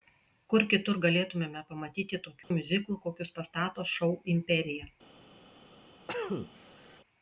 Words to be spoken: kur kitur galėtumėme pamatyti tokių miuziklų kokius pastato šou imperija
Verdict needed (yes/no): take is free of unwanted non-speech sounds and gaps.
no